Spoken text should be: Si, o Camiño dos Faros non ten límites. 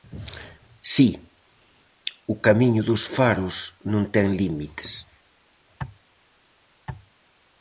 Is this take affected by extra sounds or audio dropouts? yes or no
no